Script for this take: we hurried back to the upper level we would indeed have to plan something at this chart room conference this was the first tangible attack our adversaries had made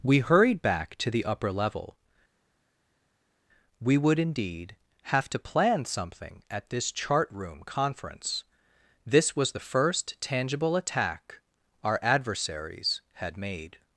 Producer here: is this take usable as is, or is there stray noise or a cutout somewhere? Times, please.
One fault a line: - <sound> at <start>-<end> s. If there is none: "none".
none